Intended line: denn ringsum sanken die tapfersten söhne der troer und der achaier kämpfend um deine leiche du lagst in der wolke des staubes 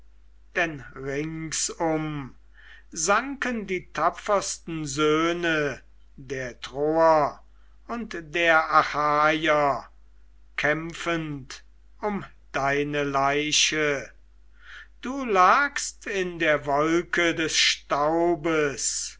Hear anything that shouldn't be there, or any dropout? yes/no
no